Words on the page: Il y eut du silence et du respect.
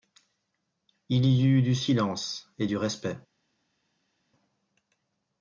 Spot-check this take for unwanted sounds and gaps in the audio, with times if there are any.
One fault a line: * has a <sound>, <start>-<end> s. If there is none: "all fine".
all fine